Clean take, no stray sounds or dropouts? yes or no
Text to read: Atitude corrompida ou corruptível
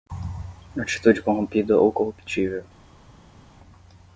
yes